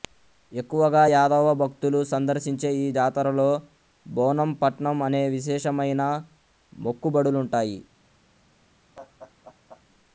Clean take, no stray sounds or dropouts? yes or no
no